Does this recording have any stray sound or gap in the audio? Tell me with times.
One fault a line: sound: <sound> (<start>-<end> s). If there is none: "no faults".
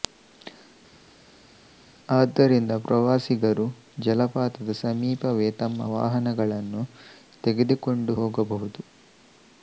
no faults